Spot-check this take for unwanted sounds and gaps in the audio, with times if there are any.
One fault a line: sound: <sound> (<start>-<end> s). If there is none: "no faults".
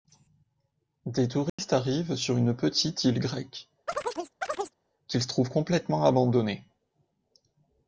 sound: dropout (1.5-1.6 s)
sound: chirp (3.9-4.8 s)